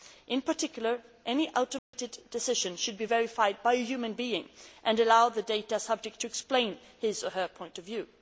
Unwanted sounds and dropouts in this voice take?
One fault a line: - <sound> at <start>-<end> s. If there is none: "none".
- dropout at 1.8-1.9 s